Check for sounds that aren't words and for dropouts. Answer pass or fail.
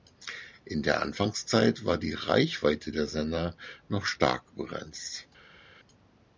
pass